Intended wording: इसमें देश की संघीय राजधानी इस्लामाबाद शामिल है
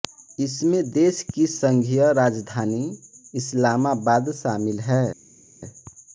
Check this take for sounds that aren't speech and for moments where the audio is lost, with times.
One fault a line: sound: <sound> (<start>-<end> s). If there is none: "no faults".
no faults